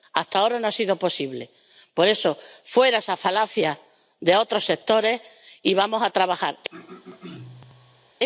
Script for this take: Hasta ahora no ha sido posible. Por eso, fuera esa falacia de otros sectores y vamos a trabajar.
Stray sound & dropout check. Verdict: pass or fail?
fail